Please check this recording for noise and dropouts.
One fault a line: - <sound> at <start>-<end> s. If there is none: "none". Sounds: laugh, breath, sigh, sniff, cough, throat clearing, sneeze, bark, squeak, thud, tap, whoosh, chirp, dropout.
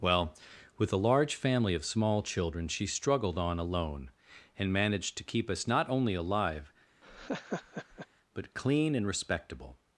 - laugh at 7.0-8.1 s